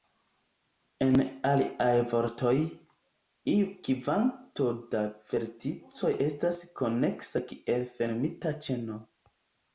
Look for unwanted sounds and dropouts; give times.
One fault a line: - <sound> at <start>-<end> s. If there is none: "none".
none